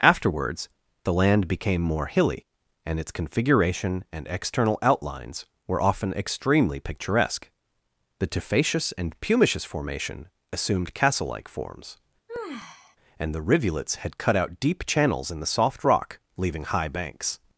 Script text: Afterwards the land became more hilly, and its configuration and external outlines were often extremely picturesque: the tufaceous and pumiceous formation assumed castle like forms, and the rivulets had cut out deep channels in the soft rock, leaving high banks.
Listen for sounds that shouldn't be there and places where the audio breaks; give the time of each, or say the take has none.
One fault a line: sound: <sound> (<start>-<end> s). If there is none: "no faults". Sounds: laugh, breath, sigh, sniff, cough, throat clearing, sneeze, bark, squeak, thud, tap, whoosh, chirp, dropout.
sound: sigh (12.3-13.0 s)